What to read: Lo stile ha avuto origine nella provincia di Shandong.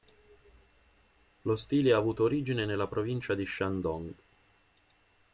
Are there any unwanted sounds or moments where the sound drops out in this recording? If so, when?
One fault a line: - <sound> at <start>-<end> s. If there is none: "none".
none